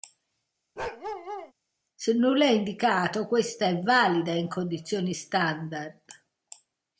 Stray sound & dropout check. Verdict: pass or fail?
fail